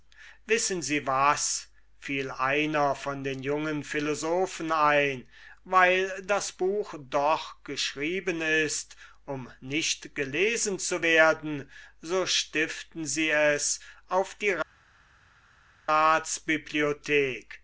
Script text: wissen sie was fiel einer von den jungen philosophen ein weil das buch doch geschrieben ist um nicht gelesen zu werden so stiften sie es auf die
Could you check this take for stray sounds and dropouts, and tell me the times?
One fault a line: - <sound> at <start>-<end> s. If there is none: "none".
none